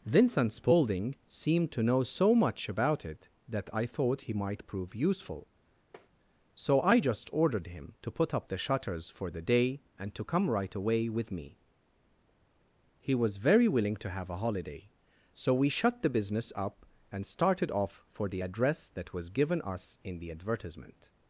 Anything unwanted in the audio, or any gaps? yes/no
yes